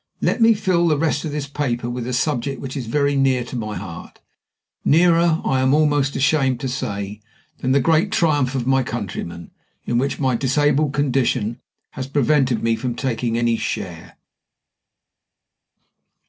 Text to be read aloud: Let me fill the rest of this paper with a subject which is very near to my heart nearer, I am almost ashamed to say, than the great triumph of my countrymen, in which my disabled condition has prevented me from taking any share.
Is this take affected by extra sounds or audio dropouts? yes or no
no